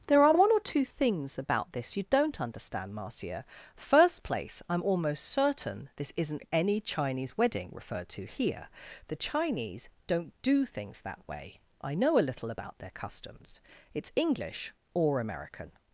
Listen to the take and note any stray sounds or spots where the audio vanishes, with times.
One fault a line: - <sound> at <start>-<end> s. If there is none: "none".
none